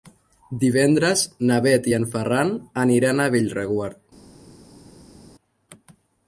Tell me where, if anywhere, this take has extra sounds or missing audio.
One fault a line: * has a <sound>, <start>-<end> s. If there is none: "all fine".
all fine